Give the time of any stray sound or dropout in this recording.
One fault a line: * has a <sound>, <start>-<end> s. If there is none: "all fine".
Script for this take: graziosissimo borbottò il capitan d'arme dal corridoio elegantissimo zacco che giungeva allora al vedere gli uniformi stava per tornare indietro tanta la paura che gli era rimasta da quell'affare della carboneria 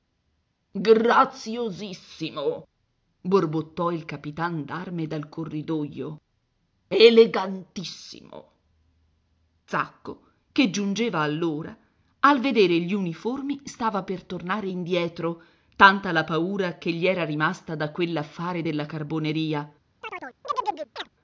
* has a chirp, 20.0-21.1 s